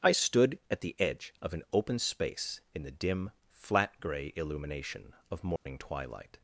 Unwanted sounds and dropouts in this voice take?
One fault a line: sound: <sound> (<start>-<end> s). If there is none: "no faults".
sound: dropout (5.6-5.7 s)